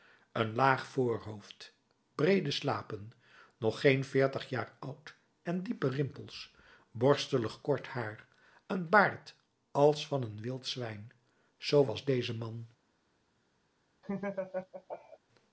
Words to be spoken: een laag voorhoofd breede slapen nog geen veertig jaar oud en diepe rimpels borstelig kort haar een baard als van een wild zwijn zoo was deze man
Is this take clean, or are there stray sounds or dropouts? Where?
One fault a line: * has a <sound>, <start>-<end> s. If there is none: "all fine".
* has a laugh, 14.0-15.2 s